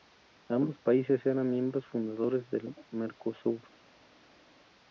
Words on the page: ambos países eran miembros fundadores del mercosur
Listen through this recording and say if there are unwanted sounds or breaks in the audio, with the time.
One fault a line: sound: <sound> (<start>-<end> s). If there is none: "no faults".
no faults